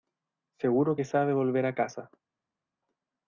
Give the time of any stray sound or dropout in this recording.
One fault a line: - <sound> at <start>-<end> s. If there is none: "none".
none